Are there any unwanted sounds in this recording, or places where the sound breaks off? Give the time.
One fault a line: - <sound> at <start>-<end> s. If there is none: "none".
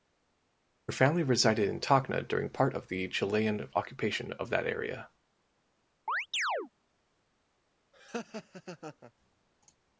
- chirp at 6.1-6.7 s
- laugh at 7.9-9.1 s